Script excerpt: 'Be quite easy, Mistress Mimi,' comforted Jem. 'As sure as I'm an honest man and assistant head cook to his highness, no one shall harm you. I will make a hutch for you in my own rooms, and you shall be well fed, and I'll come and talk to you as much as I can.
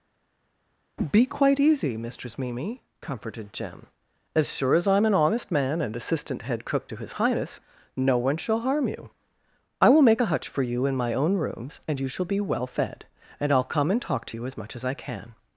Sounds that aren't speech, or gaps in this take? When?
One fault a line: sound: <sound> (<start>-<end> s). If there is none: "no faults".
no faults